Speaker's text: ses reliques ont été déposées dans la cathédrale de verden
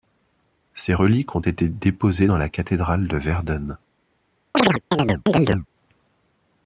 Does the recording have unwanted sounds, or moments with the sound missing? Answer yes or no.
yes